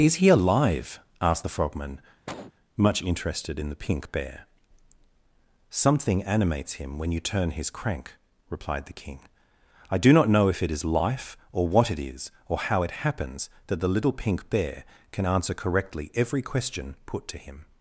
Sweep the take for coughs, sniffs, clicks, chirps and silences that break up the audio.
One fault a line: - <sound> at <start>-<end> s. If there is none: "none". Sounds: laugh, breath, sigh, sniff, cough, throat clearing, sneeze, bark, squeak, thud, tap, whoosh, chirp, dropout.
- cough at 2.3-2.5 s